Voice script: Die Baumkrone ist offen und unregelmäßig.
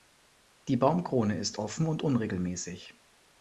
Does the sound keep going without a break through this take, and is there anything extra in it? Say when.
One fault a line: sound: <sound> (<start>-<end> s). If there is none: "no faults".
no faults